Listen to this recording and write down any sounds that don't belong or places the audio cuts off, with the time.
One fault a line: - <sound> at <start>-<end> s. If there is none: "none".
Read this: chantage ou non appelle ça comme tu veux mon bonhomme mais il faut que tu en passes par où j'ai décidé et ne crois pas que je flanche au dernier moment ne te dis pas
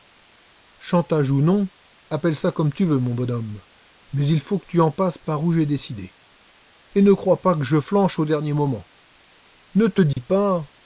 - dropout at 10.1-10.2 s